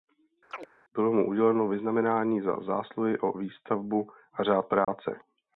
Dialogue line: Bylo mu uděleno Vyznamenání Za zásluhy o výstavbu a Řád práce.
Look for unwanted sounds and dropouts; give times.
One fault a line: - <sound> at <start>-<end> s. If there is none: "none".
- chirp at 0.5-0.7 s
- dropout at 4.8-4.9 s